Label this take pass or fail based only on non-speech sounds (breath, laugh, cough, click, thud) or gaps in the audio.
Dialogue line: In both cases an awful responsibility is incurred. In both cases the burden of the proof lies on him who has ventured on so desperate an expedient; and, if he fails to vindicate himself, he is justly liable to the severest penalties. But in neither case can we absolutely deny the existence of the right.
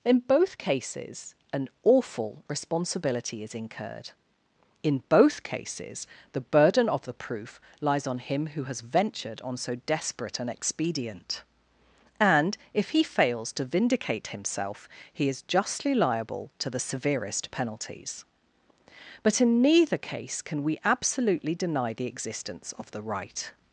pass